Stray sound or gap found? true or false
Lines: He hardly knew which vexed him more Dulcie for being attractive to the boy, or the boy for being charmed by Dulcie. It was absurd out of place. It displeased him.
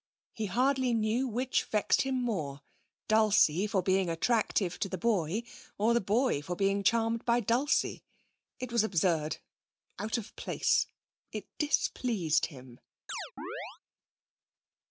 true